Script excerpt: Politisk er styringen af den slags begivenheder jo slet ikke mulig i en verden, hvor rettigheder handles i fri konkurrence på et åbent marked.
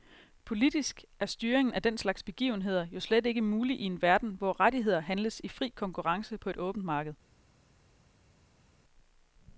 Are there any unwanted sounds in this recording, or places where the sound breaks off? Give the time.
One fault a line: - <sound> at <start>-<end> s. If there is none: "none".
none